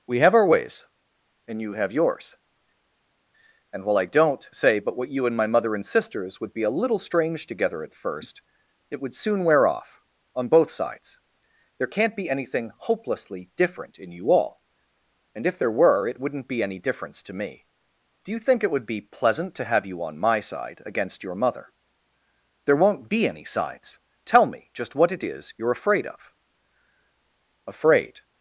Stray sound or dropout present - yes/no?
no